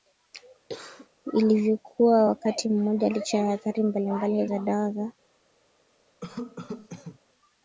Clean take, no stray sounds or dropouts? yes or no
no